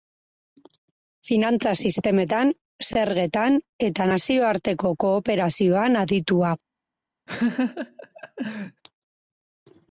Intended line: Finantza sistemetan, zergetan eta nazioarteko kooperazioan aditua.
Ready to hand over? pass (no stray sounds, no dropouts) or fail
fail